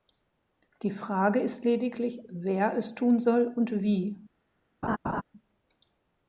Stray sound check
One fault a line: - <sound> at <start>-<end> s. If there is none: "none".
- laugh at 4.8-5.2 s